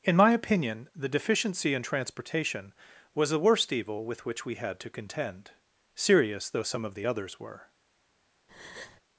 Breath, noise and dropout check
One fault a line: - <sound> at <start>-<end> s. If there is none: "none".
- breath at 8.5-9.0 s